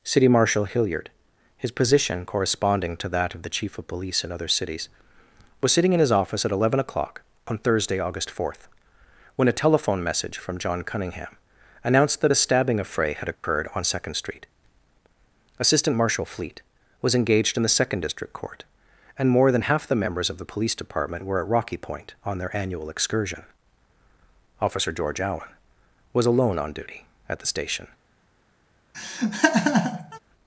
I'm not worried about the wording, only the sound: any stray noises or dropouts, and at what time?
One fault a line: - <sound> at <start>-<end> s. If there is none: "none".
- dropout at 13.3-13.4 s
- laugh at 28.9-30.2 s